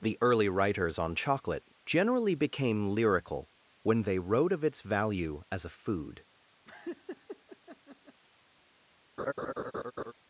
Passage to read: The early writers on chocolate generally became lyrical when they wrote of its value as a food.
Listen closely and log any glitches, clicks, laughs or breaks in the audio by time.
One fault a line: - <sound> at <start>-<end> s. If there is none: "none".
- laugh at 6.7-8.2 s
- laugh at 9.2-10.1 s